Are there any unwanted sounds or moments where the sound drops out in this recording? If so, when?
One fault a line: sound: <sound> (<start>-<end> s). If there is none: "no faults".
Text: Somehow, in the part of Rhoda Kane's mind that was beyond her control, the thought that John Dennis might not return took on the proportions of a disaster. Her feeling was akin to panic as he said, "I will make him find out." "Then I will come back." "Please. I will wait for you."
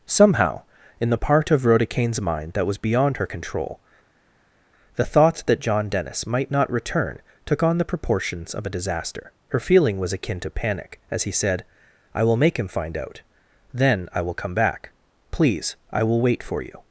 no faults